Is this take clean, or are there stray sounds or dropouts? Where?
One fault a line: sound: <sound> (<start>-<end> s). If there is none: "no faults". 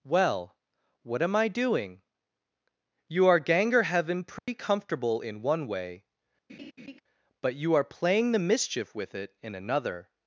sound: dropout (4.4-4.5 s)
sound: laugh (6.5-7.0 s)